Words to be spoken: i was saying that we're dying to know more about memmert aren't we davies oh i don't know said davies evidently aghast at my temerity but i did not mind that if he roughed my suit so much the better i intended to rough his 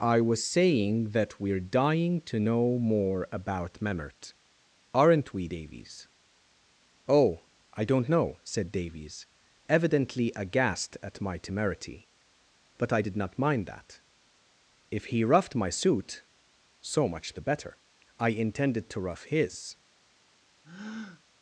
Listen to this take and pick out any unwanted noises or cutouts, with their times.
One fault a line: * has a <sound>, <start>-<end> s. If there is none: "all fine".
* has a breath, 20.6-21.2 s